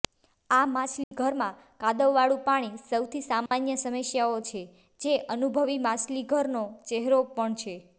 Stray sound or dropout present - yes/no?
yes